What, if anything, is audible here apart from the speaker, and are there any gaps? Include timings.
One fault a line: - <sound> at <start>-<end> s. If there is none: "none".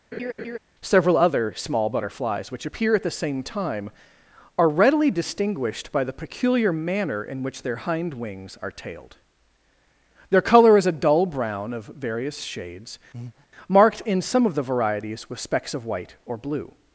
- laugh at 0.1-0.6 s
- breath at 13.1-13.5 s